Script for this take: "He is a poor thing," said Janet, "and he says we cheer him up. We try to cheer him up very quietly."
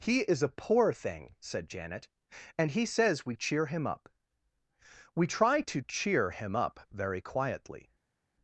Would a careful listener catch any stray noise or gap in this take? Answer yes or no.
no